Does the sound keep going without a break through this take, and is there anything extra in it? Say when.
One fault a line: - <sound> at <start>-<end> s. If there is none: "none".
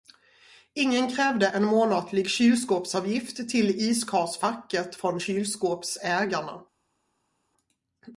none